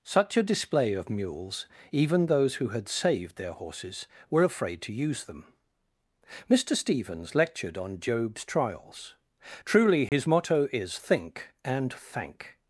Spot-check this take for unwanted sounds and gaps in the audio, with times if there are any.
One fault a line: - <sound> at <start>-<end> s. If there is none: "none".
- dropout at 10.1-10.1 s